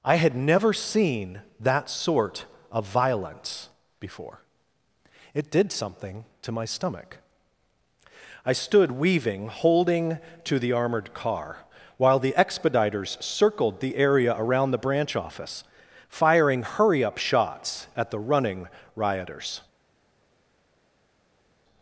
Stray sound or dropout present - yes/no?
no